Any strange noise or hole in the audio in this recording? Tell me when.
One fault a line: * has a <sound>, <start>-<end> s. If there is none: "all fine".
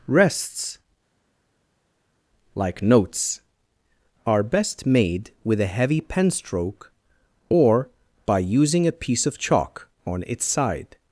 all fine